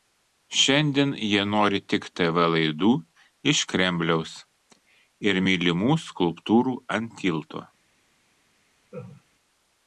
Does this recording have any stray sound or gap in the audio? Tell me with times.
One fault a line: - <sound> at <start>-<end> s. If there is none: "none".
- laugh at 8.9-9.2 s